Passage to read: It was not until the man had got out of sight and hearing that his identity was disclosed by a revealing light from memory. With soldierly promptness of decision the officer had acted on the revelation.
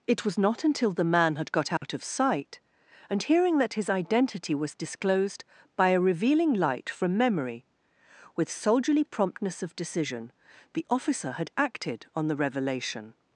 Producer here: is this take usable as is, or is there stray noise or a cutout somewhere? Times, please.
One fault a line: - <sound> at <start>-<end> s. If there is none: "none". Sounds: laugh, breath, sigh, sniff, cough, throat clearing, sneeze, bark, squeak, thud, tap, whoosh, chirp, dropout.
- dropout at 1.8-1.8 s